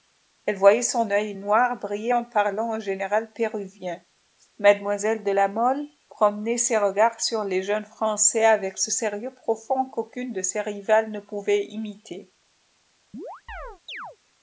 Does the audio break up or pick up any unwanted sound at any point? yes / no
yes